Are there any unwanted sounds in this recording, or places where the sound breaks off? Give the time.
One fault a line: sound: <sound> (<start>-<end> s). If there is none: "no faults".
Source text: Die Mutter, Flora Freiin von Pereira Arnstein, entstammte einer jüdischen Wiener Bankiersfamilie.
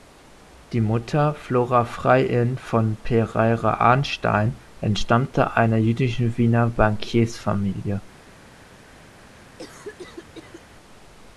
sound: cough (9.3-10.6 s)